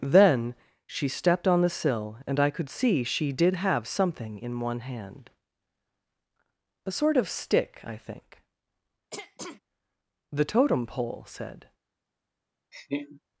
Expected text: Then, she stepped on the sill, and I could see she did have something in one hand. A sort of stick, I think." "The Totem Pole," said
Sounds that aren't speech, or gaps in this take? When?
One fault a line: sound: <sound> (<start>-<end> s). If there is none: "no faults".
sound: throat clearing (9.1-9.6 s)
sound: laugh (12.7-13.2 s)